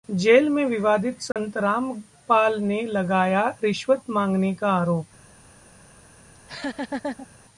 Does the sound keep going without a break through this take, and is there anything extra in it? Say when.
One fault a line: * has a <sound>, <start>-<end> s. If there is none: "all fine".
* has a dropout, 1.3-1.4 s
* has a laugh, 6.3-7.3 s